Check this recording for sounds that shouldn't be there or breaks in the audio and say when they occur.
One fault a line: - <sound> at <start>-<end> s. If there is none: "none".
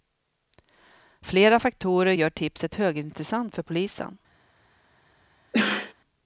- sneeze at 5.5-5.9 s